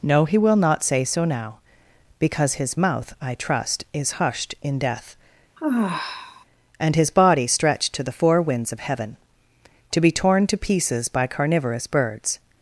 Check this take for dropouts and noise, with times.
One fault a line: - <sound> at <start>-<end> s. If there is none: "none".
- sigh at 5.6-6.5 s